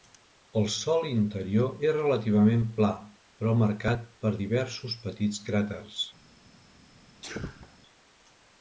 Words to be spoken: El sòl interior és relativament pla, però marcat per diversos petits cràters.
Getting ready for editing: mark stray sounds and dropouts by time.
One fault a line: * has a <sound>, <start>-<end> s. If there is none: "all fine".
* has a sneeze, 7.2-7.8 s